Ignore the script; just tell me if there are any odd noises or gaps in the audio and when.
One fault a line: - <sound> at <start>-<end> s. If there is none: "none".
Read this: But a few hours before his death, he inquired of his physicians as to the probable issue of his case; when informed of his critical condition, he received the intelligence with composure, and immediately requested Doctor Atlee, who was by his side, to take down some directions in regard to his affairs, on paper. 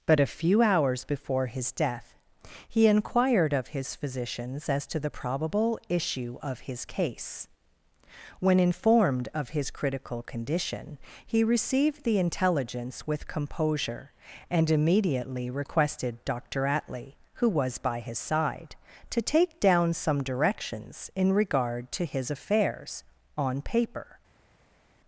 none